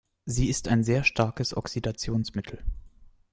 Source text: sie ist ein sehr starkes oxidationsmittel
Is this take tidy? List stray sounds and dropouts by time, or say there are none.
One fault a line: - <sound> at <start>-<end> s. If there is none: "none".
none